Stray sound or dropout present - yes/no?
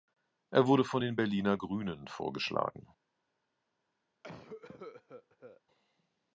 yes